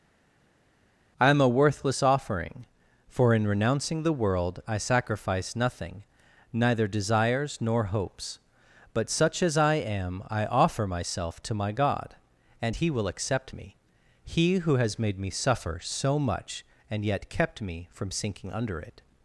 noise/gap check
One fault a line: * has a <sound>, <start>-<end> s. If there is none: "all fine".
all fine